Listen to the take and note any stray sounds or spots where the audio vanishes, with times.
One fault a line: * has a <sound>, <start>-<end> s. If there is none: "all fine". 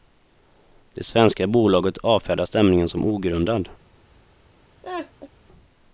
* has a laugh, 4.8-5.3 s